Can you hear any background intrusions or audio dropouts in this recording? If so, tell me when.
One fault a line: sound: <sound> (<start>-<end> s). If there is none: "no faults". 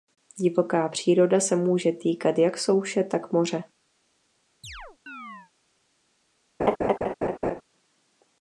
sound: chirp (4.6-5.5 s)
sound: laugh (6.6-7.6 s)